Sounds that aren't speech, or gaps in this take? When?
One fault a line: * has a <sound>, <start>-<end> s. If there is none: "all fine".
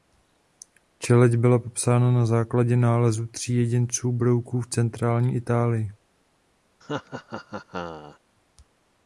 * has a laugh, 6.8-8.2 s